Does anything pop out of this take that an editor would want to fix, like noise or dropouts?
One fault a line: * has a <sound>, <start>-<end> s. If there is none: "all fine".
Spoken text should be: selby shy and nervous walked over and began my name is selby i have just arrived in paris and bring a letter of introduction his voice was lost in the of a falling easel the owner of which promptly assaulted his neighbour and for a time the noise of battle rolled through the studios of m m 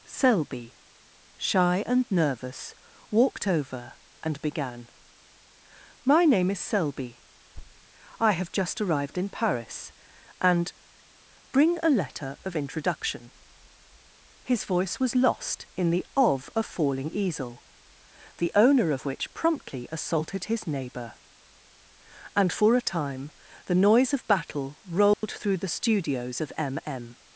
* has a thud, 7.5-7.9 s
* has a dropout, 25.1-25.2 s